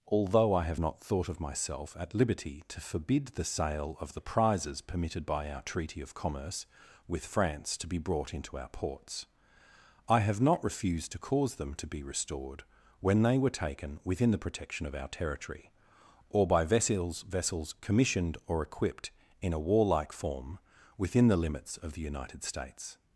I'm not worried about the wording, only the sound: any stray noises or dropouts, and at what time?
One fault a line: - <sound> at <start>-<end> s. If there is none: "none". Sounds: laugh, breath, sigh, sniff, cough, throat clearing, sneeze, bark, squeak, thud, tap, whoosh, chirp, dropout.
none